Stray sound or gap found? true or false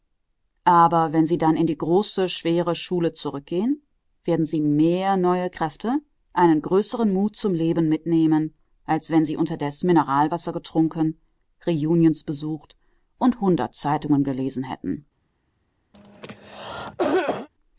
true